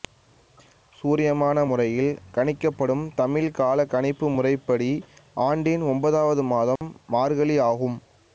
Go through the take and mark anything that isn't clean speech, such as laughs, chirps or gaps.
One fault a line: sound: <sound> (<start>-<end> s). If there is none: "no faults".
sound: dropout (6.8-6.8 s)